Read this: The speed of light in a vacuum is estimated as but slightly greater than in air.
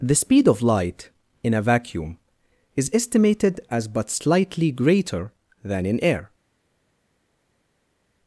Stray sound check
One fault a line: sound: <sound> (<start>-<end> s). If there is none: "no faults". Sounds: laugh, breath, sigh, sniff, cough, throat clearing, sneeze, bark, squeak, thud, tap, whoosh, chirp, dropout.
no faults